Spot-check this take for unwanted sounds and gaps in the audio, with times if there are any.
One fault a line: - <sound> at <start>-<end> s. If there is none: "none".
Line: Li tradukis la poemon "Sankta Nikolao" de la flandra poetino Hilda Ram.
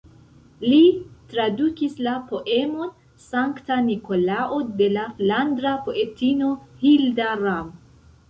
none